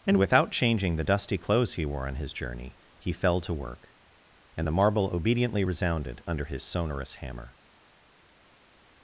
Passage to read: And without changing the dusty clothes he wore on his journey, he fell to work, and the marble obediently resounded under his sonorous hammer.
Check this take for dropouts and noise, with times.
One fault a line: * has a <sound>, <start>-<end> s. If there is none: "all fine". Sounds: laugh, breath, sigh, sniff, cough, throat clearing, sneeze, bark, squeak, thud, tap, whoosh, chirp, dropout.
all fine